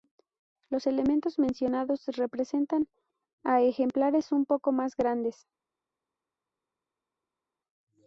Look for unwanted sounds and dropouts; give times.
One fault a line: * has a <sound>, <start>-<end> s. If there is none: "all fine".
all fine